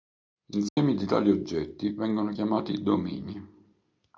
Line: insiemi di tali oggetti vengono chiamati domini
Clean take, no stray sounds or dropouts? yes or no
no